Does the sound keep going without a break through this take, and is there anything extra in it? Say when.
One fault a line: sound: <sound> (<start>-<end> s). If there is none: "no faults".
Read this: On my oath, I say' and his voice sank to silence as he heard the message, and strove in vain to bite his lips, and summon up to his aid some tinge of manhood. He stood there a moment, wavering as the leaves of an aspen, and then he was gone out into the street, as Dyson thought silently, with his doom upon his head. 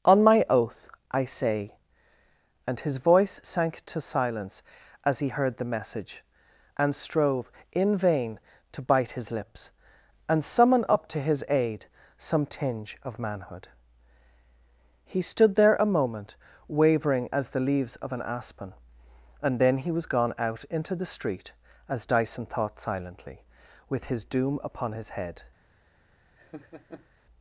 sound: laugh (26.4-27.1 s)